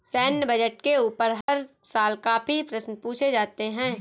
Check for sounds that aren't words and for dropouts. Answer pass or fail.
fail